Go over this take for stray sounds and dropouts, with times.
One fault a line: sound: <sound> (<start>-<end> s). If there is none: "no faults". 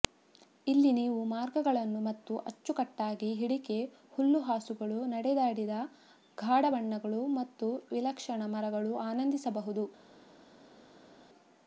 no faults